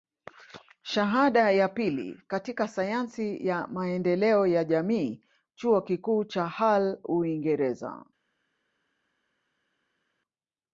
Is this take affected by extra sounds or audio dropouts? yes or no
no